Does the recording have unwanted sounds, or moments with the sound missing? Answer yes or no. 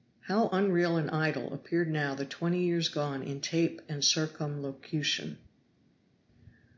no